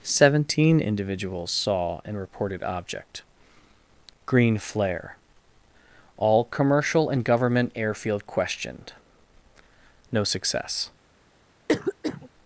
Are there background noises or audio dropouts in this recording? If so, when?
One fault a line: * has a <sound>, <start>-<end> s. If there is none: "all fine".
* has a cough, 11.7-12.3 s